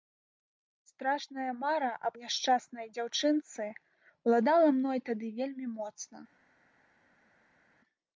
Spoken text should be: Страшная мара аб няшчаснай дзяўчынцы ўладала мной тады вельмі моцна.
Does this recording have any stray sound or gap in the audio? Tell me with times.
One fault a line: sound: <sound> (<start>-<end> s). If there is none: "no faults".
no faults